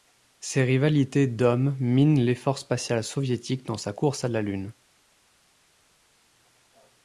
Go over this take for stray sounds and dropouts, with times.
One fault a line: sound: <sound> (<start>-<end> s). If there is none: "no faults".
no faults